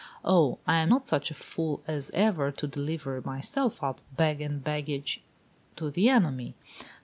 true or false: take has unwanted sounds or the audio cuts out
false